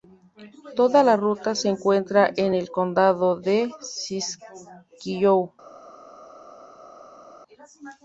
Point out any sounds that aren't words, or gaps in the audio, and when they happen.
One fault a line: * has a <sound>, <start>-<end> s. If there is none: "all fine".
all fine